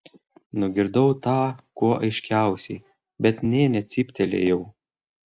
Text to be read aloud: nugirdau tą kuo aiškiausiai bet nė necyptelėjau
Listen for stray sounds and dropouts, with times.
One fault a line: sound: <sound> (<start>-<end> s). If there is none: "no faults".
no faults